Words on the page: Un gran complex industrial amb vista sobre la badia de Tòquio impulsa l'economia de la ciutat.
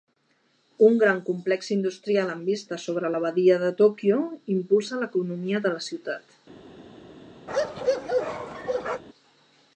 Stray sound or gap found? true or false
true